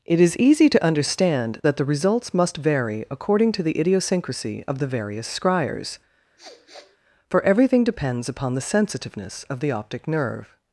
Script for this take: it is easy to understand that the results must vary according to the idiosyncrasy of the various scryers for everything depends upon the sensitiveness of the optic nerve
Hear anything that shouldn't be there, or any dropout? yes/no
yes